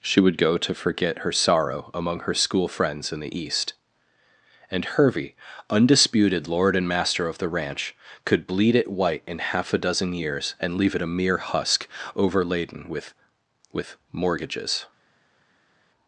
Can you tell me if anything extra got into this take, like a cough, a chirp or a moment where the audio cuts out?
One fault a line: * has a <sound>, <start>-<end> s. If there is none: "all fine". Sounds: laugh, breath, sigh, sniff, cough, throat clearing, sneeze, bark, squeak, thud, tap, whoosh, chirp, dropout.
all fine